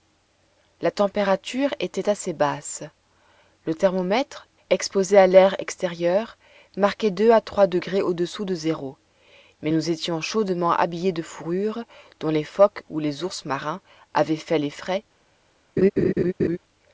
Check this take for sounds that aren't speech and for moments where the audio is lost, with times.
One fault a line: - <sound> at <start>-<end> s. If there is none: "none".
- laugh at 15.8-16.6 s